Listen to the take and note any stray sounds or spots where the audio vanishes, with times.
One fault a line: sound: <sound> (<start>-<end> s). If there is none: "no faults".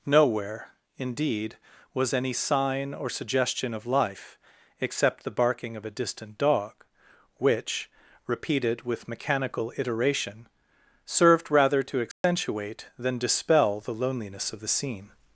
sound: dropout (12.1-12.2 s)